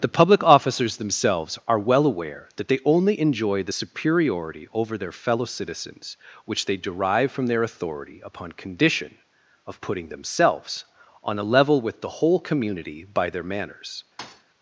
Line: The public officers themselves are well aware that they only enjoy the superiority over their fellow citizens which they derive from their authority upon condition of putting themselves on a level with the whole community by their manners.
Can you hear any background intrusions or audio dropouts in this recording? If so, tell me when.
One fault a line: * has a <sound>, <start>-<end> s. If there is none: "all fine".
* has a thud, 14.2-14.4 s